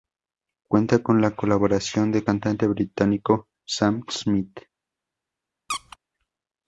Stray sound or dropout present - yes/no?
yes